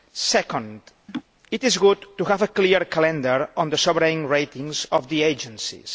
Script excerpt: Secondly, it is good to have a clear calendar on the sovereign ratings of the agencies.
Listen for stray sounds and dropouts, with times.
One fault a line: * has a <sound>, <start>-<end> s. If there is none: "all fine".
* has a laugh, 1.1-1.2 s